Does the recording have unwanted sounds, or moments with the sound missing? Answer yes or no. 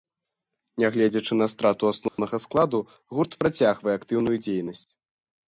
yes